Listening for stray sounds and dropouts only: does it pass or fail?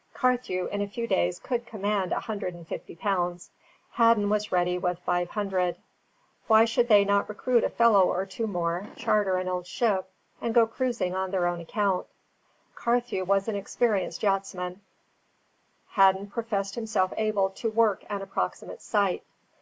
pass